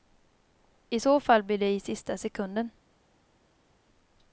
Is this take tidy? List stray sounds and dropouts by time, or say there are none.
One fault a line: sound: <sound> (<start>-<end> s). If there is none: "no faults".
no faults